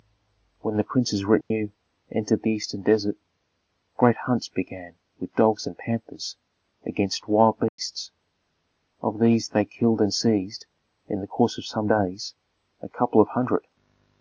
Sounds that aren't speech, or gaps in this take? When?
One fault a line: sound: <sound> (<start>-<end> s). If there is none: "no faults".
sound: dropout (1.4-1.5 s)
sound: dropout (7.7-7.8 s)